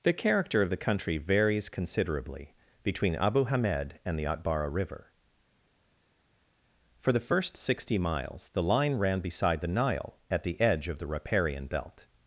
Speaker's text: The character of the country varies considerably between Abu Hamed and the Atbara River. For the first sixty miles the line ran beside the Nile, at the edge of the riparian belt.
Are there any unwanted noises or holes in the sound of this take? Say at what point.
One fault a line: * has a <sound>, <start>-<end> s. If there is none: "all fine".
all fine